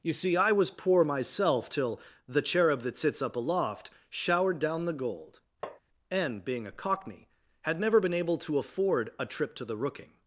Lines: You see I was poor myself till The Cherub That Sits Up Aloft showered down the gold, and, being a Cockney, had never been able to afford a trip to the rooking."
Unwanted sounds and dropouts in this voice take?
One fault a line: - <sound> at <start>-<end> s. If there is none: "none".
- tap at 5.6-5.8 s